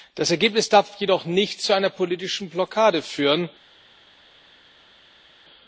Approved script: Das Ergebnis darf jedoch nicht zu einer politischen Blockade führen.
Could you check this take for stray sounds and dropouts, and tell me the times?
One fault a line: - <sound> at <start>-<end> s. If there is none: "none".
none